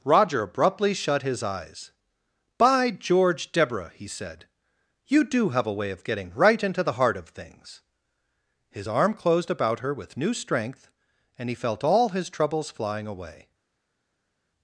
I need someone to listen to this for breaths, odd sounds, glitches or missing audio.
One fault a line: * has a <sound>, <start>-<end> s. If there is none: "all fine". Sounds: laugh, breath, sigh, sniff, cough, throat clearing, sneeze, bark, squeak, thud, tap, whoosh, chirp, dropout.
all fine